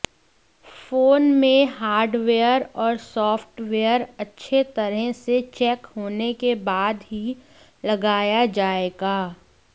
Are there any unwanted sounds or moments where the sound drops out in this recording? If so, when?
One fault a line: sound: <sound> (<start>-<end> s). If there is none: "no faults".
no faults